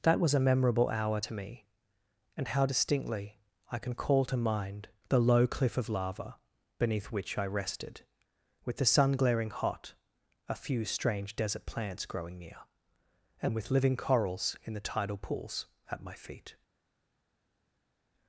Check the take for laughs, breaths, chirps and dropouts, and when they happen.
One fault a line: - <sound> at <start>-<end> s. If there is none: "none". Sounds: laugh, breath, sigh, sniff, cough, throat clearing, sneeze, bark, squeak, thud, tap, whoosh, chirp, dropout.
none